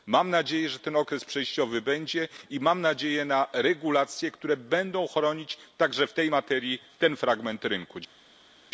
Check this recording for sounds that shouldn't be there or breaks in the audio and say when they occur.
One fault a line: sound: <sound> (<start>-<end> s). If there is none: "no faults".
no faults